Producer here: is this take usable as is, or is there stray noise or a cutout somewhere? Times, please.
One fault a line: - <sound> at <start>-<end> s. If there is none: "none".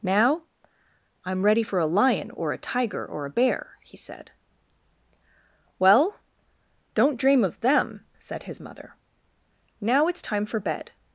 none